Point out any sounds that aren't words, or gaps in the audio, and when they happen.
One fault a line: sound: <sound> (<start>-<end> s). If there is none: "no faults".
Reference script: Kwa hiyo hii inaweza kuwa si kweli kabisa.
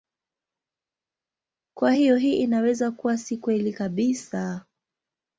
no faults